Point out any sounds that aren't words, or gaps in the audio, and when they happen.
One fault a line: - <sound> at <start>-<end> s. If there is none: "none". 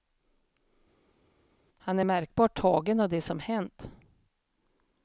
none